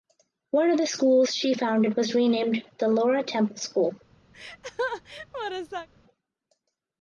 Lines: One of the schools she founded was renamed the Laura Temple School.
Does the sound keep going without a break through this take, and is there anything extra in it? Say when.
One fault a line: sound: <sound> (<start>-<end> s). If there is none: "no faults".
sound: laugh (4.3-5.9 s)